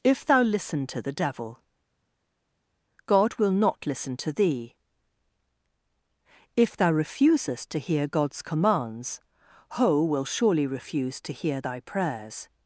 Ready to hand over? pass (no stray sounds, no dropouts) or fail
pass